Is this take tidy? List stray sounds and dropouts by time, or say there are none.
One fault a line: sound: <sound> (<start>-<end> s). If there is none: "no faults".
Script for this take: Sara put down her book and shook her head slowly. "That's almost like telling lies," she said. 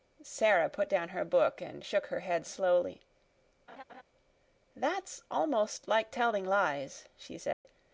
sound: laugh (3.7-4.0 s)
sound: dropout (7.5-7.7 s)